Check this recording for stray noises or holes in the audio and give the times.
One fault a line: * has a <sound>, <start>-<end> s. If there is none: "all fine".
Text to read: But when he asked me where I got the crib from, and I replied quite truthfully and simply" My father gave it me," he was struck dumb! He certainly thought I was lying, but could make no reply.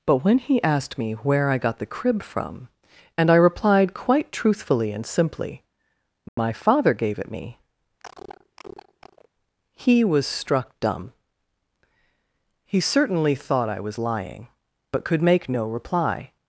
* has a dropout, 6.3-6.4 s
* has a cough, 8.0-9.3 s